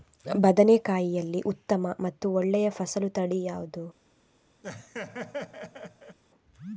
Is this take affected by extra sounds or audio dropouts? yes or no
yes